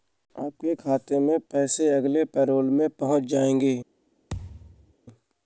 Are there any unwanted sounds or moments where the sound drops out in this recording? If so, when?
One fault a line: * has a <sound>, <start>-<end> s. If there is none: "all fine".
* has a thud, 4.3-4.9 s